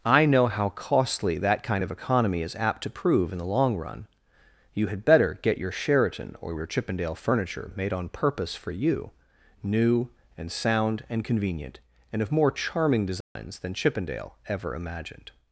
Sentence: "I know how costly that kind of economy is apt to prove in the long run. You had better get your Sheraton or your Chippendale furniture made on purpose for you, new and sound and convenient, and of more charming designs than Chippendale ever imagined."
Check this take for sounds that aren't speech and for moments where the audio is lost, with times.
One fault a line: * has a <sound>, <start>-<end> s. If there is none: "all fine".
* has a dropout, 13.2-13.4 s